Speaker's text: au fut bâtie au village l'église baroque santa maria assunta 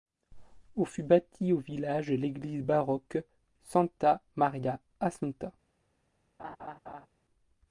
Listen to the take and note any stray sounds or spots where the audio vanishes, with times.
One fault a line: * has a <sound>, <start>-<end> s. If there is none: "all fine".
* has a laugh, 6.4-7.1 s